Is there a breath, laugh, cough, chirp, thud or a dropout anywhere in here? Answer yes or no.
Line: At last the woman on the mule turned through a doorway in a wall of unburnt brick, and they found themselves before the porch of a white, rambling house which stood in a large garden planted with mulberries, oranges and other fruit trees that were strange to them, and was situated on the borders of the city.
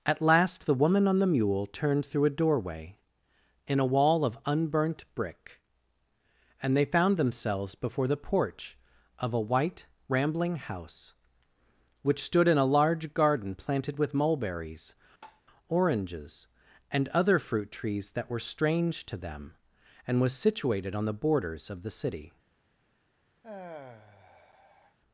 yes